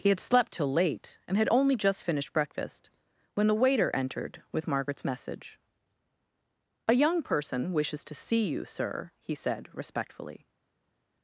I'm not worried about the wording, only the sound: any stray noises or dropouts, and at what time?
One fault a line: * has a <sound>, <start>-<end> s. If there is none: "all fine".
all fine